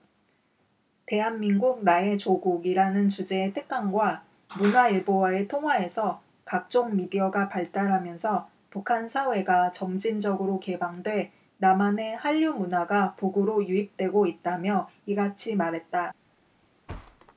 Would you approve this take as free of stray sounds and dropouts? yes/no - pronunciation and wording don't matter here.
no